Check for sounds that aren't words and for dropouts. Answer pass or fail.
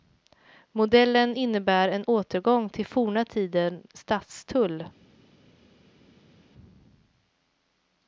pass